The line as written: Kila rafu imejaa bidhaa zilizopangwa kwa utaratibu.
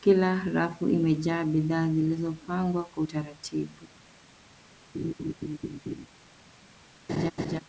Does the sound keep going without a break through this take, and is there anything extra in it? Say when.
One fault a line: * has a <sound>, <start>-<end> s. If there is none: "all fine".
* has a laugh, 4.9-6.1 s
* has a laugh, 7.1-7.6 s